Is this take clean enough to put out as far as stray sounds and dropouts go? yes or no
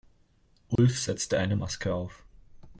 no